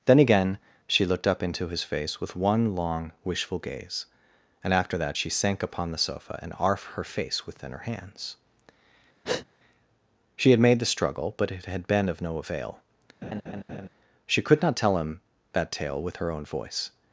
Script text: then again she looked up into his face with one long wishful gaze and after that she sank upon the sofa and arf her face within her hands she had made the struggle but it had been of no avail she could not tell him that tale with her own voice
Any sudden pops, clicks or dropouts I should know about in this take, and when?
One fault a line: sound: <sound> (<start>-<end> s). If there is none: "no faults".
sound: breath (9.2-9.5 s)
sound: laugh (13.2-13.9 s)